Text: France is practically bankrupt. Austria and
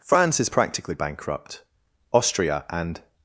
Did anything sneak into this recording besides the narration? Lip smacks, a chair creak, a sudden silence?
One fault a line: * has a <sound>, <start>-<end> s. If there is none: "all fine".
all fine